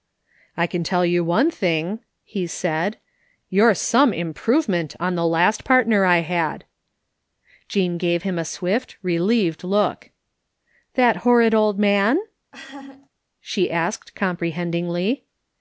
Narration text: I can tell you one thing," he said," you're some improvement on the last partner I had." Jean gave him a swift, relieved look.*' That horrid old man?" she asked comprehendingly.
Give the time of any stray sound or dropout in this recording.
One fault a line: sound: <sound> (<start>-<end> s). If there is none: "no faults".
sound: laugh (12.5-13.1 s)